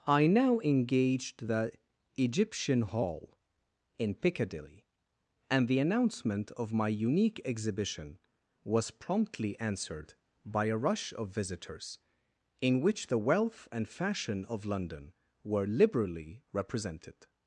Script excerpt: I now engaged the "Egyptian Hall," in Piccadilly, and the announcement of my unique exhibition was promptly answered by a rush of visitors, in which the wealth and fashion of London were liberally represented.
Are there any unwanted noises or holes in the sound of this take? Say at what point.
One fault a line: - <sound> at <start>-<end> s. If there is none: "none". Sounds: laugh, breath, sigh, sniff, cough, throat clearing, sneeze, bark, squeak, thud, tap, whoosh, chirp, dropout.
none